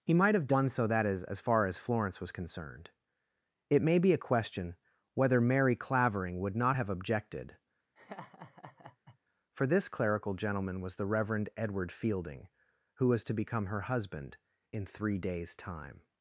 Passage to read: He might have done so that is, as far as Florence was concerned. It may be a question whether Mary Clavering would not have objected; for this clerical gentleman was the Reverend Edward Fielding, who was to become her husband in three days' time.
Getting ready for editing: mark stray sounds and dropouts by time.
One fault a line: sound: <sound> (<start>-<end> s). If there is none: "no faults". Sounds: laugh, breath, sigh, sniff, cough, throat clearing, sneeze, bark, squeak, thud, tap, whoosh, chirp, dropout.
sound: laugh (8.0-9.2 s)